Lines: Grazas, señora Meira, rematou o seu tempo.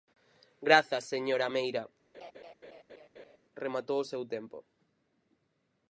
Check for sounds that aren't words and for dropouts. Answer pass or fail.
fail